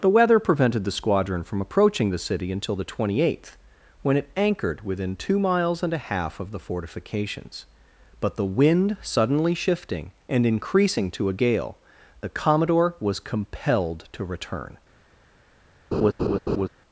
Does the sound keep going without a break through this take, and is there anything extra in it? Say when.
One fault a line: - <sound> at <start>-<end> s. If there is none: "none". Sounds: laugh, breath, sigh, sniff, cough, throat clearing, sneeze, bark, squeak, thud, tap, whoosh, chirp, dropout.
- laugh at 15.9-16.7 s